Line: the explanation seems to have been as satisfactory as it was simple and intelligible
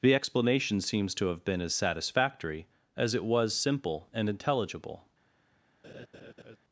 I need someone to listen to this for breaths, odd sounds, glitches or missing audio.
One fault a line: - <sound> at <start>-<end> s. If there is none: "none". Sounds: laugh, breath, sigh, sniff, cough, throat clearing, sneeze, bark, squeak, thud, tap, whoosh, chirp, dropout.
- laugh at 5.8-6.6 s